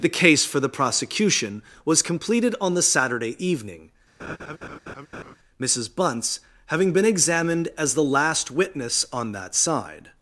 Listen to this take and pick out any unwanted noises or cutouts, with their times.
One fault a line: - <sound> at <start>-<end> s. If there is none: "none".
- laugh at 4.2-5.4 s